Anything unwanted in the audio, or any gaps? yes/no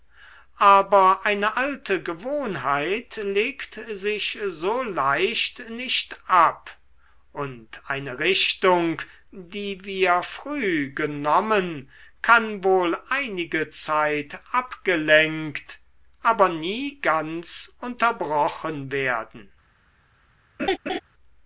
yes